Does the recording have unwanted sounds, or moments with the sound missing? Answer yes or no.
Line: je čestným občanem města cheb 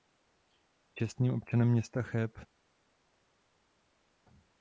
no